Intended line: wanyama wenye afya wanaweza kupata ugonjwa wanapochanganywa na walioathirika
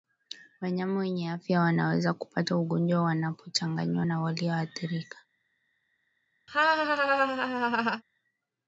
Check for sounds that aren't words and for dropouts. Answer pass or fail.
fail